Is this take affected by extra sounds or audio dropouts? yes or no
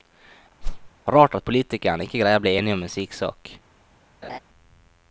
yes